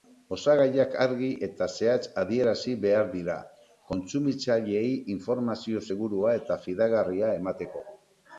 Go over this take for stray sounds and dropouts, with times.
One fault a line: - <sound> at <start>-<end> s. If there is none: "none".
none